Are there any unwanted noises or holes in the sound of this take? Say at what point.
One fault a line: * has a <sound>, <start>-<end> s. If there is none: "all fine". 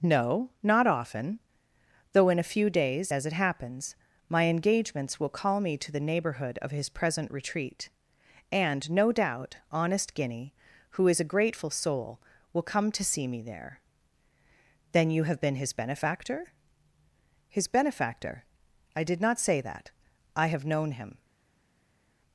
all fine